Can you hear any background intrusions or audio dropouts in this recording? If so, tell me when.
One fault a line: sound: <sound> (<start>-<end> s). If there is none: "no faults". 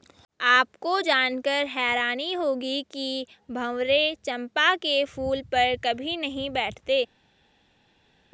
no faults